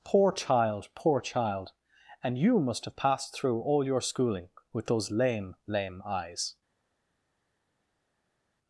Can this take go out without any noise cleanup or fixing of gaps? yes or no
yes